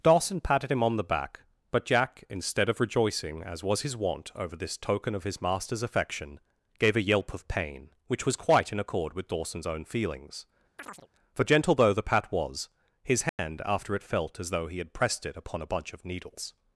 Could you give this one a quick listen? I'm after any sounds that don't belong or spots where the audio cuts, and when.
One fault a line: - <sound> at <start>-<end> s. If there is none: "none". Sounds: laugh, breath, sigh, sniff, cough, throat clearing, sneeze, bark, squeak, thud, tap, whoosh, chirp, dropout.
- chirp at 10.8-11.1 s
- dropout at 13.3-13.4 s